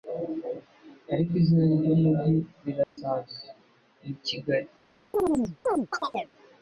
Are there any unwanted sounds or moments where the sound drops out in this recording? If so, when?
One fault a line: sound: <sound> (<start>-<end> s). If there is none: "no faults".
sound: dropout (2.8-3.0 s)
sound: chirp (5.1-6.3 s)